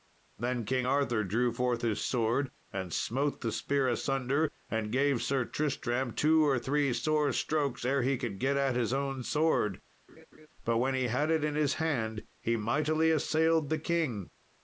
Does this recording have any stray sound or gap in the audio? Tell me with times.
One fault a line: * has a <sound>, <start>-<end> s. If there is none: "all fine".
* has a laugh, 10.1-10.5 s